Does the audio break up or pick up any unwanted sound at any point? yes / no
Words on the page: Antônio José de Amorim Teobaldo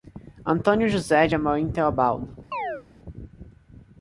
yes